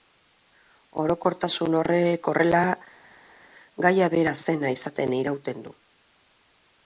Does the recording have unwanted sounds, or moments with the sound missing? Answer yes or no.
no